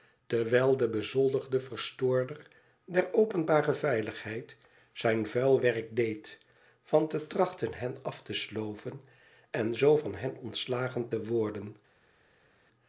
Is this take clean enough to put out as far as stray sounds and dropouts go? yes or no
yes